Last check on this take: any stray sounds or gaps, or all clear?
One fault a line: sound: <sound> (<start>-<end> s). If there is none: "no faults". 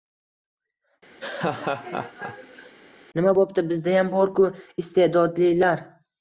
sound: laugh (1.2-2.7 s)